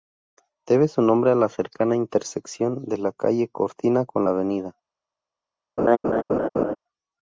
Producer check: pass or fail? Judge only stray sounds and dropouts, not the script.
fail